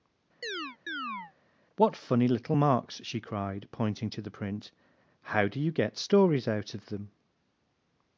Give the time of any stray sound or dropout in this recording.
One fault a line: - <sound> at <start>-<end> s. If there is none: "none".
- chirp at 0.4-1.3 s